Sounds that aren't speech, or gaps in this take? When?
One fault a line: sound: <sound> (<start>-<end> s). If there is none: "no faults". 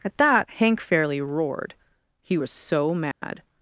sound: dropout (3.1-3.2 s)